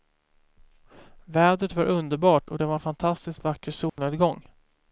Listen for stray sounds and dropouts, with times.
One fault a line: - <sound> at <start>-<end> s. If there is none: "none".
- dropout at 3.9-4.0 s